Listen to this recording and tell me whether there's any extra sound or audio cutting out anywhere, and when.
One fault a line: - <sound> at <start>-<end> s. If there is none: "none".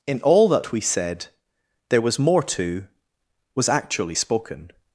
none